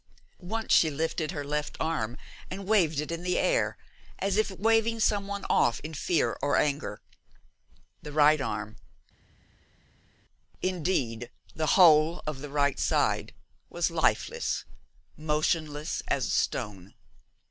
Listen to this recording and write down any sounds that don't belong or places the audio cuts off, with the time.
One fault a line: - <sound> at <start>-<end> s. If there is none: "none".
none